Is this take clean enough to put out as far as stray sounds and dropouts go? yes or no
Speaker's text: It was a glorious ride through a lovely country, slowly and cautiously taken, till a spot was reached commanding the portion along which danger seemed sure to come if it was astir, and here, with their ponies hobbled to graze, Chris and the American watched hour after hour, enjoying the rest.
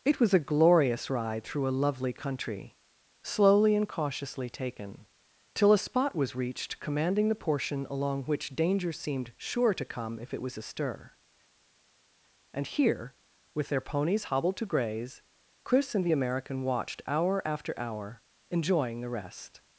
yes